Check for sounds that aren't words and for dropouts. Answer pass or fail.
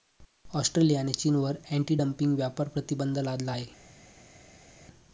pass